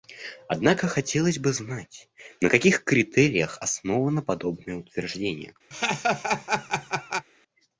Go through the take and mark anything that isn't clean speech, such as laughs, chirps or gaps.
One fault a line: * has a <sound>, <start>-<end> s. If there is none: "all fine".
* has a laugh, 5.7-7.3 s